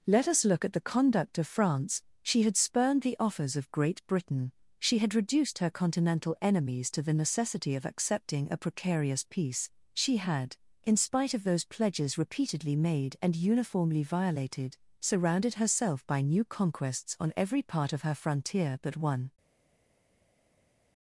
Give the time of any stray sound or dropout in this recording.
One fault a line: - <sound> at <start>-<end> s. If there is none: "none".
none